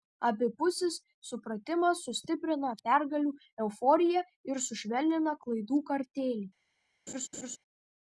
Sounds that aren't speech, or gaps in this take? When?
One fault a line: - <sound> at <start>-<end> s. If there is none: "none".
- laugh at 7.1-7.6 s